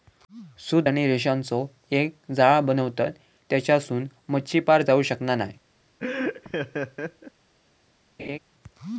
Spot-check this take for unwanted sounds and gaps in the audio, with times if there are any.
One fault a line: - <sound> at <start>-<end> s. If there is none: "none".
- laugh at 6.0-7.3 s
- laugh at 8.2-8.4 s